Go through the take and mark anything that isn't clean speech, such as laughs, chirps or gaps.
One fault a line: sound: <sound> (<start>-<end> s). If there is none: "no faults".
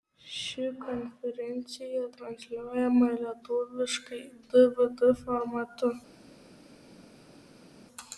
no faults